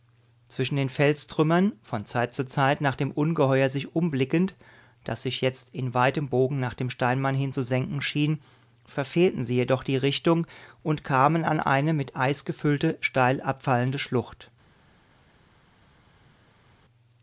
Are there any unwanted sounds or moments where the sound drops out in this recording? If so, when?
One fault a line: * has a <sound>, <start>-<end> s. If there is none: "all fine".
all fine